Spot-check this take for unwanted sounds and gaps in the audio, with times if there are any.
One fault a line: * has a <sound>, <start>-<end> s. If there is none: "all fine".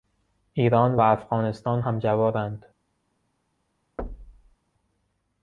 * has a thud, 4.0-4.6 s